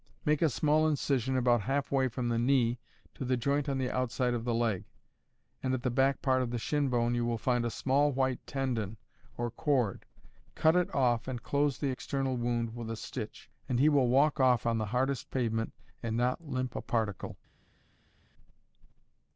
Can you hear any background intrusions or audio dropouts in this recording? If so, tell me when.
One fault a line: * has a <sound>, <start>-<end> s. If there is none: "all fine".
all fine